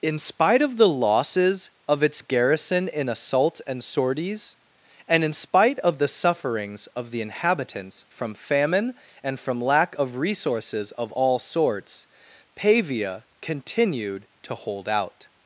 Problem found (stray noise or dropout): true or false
false